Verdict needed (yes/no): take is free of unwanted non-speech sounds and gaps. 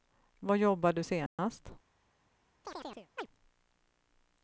no